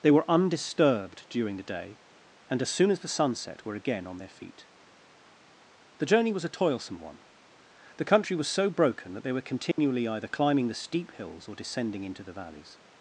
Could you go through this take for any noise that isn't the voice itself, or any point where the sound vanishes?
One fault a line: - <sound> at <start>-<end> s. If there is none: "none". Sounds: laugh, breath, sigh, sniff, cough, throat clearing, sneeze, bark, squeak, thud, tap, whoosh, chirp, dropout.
- dropout at 9.7-9.8 s